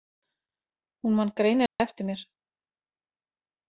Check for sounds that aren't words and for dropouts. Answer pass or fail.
fail